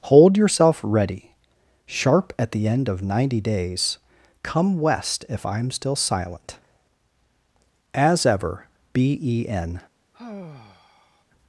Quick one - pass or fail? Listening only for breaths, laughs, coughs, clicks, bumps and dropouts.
fail